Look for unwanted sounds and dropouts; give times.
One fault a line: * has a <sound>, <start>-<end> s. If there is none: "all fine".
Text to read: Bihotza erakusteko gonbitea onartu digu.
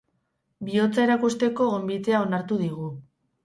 all fine